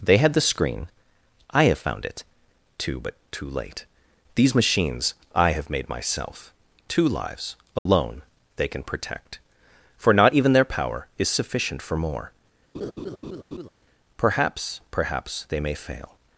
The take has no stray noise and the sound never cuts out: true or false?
false